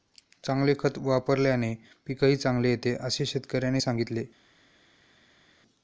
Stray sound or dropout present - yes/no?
no